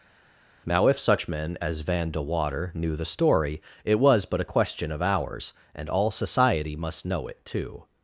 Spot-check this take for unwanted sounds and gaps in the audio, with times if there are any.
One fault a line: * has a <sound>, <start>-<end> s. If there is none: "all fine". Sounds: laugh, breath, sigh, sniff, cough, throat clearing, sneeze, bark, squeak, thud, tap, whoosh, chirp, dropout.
all fine